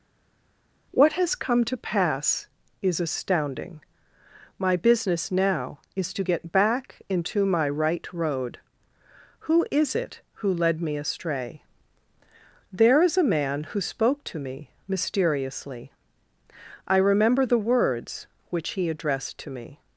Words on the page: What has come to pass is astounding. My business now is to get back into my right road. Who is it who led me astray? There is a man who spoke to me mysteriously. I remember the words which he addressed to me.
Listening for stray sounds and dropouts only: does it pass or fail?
pass